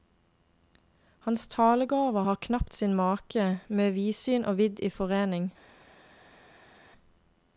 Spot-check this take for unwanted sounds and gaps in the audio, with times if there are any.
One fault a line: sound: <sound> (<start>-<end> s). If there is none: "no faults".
no faults